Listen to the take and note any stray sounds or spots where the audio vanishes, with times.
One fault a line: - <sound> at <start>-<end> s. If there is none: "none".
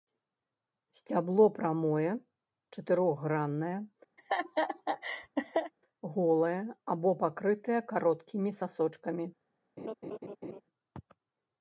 - laugh at 4.2-5.7 s
- laugh at 9.8-10.6 s